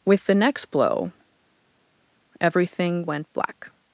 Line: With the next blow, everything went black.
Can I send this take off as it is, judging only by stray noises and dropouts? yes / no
yes